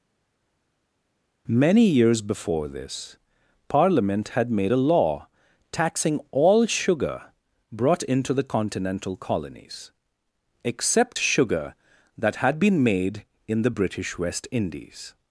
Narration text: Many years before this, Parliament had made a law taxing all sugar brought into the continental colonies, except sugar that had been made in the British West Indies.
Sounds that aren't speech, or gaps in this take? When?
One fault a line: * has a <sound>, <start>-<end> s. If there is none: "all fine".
all fine